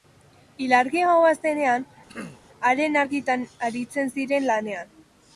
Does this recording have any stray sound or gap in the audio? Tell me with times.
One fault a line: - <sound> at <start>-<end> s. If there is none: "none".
- throat clearing at 2.1-2.4 s